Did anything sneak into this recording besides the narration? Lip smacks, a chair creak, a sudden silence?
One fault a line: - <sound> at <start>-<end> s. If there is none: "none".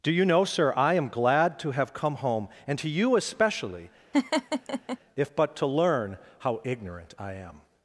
- laugh at 4.1-5.0 s